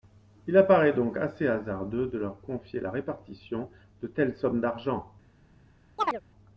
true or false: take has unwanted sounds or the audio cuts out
true